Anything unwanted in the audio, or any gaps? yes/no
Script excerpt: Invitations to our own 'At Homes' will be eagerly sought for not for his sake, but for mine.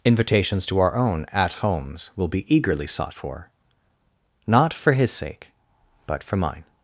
no